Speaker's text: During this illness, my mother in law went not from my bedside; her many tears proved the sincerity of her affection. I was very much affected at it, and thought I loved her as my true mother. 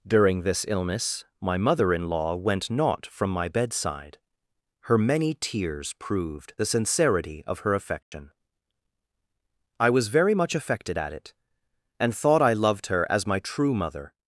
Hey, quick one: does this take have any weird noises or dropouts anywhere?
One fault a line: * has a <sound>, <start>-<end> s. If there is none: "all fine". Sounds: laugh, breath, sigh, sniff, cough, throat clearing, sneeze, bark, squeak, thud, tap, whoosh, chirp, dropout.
* has a dropout, 8.0-8.1 s